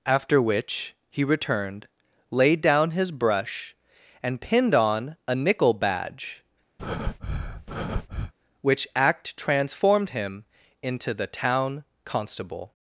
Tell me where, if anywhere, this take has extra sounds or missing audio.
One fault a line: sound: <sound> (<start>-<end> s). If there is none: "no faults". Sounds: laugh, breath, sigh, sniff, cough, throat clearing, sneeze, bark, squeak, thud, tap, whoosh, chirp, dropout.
sound: breath (6.8-8.3 s)